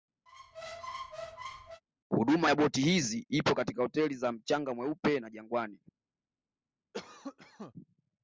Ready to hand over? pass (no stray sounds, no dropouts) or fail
fail